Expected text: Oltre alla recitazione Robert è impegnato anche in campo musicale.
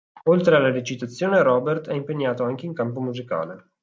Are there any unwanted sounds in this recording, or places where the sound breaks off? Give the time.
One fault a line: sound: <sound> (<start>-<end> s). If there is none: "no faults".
no faults